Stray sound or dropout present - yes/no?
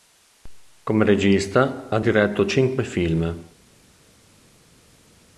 no